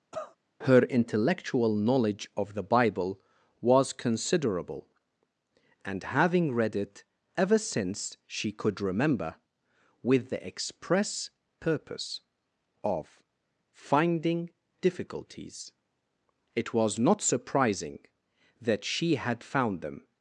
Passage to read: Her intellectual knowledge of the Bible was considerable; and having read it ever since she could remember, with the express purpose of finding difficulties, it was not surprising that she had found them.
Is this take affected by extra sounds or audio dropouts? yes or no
yes